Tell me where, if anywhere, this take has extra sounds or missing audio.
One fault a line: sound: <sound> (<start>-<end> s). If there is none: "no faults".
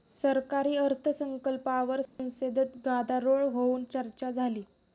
sound: dropout (2.1-2.2 s)